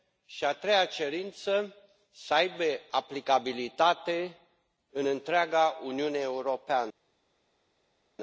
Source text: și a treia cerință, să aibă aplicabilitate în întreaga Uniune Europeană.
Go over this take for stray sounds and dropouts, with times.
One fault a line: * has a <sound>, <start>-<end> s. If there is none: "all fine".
all fine